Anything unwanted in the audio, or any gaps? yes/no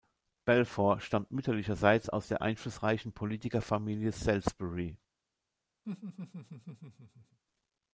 yes